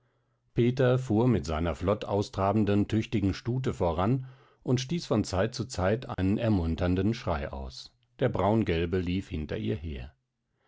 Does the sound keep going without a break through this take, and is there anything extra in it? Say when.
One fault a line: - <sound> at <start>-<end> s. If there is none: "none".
- dropout at 6.1-6.2 s